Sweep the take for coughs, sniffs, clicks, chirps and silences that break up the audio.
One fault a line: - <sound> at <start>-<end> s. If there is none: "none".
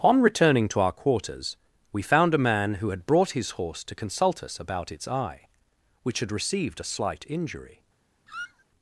- squeak at 8.3-8.7 s